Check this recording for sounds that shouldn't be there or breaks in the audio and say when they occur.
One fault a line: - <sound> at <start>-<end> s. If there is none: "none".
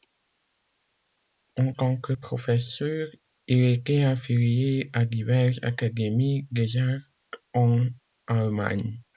none